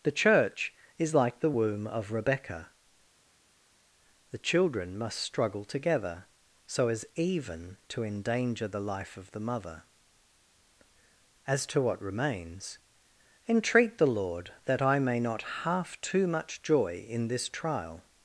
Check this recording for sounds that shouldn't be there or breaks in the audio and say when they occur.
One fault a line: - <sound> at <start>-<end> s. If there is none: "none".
none